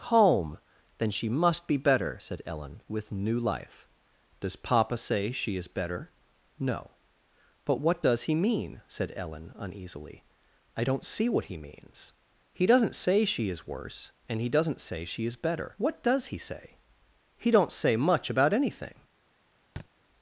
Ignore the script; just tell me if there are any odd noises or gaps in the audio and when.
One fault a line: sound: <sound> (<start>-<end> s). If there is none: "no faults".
sound: thud (19.8-19.9 s)